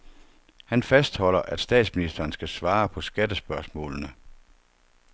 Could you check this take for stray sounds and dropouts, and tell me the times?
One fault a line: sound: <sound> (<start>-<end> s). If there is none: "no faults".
no faults